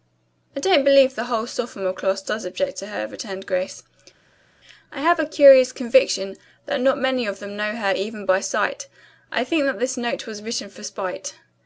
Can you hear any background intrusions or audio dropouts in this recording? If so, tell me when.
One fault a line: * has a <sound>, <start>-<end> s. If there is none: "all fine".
all fine